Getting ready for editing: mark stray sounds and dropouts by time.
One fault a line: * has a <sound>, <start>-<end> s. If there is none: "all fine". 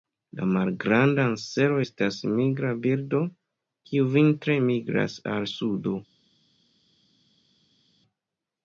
all fine